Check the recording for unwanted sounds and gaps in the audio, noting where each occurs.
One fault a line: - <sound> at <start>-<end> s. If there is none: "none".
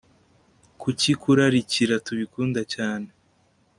none